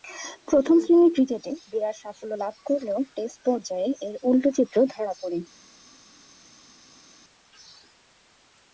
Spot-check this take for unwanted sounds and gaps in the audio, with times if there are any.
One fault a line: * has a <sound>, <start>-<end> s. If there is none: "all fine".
all fine